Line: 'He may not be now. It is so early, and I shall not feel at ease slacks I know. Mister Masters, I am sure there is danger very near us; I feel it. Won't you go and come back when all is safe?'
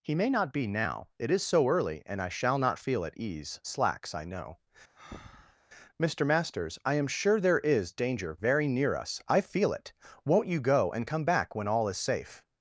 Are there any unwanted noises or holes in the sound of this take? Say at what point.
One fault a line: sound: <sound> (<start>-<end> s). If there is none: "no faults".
sound: breath (5.0-5.6 s)